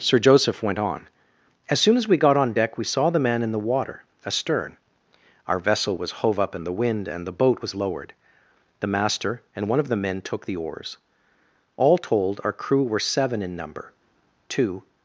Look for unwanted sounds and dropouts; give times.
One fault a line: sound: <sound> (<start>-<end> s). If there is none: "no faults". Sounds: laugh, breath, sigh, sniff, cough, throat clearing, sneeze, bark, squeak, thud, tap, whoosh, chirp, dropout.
no faults